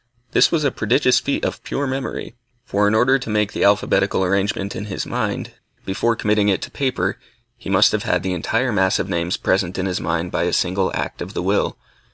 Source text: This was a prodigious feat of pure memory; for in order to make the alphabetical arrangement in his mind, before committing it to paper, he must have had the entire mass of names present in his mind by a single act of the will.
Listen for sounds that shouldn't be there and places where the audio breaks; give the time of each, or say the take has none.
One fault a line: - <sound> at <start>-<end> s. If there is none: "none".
none